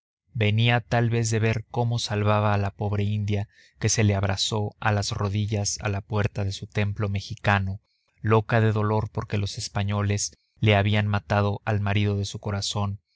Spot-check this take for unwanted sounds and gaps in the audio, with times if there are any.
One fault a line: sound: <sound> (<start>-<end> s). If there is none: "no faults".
no faults